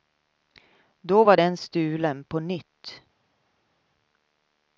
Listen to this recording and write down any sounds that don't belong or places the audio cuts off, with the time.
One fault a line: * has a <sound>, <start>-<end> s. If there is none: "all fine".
all fine